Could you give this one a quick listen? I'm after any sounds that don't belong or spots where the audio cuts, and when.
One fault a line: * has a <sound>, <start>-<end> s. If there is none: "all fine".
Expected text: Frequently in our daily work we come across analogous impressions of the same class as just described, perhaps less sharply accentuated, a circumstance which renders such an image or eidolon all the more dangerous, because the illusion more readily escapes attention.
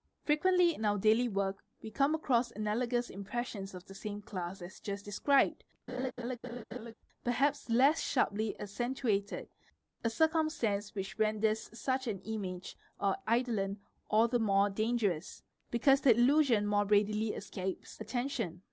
* has a laugh, 5.9-6.9 s